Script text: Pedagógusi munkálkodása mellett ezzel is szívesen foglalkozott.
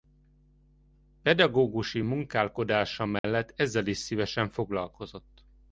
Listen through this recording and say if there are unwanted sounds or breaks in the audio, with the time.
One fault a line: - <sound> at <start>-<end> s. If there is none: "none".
- dropout at 3.2-3.2 s